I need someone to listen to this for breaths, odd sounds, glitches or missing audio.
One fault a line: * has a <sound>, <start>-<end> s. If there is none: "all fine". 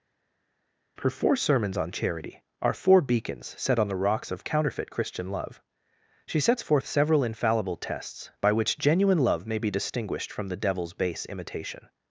all fine